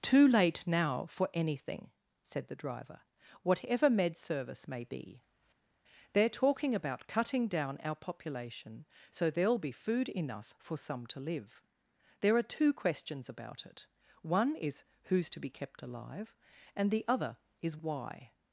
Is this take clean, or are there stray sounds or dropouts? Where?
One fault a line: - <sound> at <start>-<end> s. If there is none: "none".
none